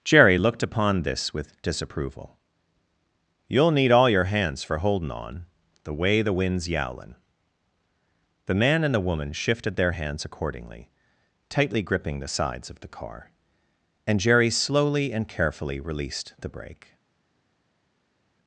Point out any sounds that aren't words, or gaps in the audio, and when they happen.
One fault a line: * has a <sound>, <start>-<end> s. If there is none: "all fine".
all fine